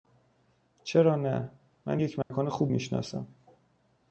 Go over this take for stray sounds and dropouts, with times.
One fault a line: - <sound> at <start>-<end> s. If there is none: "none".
- dropout at 2.2-2.3 s